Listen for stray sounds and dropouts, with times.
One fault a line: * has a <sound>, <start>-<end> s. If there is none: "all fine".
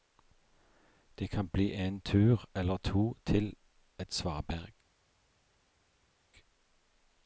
all fine